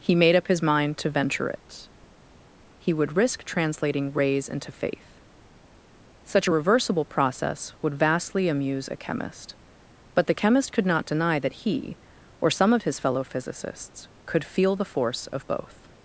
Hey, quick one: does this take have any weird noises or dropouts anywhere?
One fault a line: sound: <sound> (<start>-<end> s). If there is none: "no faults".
no faults